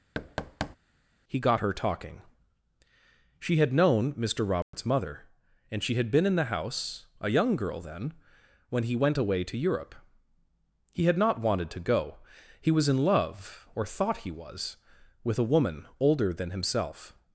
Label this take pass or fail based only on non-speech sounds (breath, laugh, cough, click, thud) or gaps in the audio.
fail